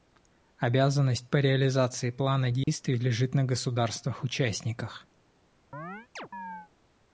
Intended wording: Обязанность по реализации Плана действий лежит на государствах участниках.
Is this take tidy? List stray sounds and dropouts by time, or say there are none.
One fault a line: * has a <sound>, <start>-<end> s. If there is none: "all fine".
* has a dropout, 2.6-2.7 s
* has a chirp, 5.7-6.7 s